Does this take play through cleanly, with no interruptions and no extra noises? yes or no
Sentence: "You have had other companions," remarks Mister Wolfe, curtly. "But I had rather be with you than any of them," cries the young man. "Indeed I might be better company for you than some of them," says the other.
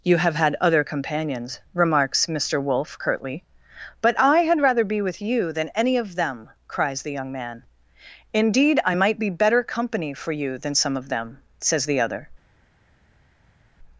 yes